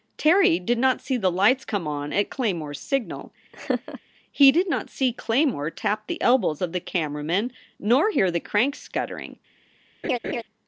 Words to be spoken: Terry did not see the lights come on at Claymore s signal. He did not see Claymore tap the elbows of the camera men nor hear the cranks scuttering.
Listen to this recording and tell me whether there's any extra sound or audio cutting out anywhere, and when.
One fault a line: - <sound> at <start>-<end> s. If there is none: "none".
- laugh at 3.5-4.0 s
- laugh at 10.0-10.4 s